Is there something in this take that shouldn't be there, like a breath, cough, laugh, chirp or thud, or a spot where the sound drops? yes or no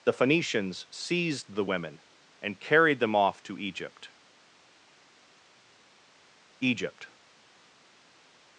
no